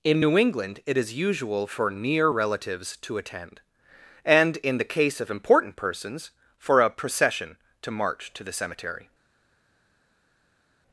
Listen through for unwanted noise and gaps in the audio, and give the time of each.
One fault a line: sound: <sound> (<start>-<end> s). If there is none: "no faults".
no faults